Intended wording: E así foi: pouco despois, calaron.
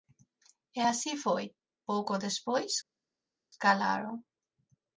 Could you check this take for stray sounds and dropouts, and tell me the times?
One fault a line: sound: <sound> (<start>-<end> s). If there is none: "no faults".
no faults